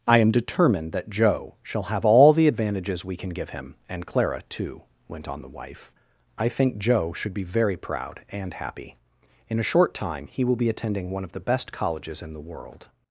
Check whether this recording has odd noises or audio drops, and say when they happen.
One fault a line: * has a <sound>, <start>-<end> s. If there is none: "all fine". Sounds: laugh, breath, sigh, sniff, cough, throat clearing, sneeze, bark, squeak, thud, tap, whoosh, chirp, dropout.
all fine